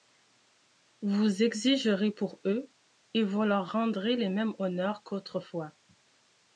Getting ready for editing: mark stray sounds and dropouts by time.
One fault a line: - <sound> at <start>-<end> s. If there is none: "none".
none